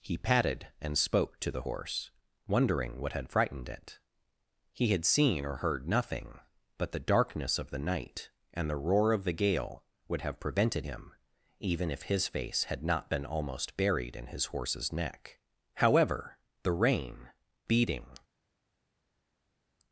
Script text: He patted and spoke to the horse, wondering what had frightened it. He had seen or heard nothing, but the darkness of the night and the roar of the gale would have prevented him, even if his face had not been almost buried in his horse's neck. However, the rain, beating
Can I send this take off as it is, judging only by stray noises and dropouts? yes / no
yes